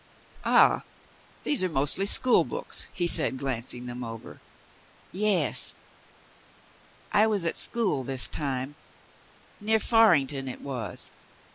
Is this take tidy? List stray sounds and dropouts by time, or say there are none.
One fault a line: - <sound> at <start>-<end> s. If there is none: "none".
none